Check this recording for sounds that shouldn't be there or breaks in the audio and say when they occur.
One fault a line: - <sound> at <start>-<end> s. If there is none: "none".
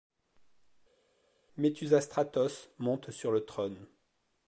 none